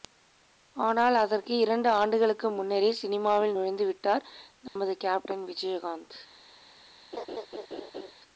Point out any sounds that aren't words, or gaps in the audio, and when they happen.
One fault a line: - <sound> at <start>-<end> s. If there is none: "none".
- dropout at 4.7-4.8 s
- laugh at 7.1-8.1 s